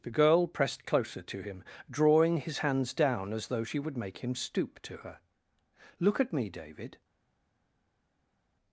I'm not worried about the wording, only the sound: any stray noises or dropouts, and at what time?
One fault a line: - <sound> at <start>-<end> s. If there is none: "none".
none